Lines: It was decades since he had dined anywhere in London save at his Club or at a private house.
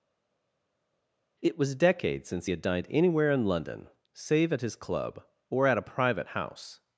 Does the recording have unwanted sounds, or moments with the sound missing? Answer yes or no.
no